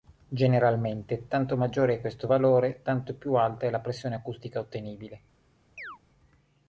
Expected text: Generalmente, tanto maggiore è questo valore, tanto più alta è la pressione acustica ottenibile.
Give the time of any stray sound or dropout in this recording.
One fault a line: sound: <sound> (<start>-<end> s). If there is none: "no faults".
sound: chirp (5.8-6.0 s)